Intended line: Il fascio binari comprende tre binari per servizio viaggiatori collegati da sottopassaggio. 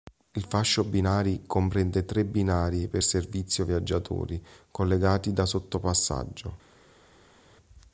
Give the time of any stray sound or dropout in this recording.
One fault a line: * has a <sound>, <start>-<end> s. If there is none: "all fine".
all fine